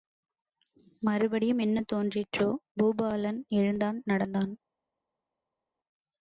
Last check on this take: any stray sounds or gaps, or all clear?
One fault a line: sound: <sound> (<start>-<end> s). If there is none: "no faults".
no faults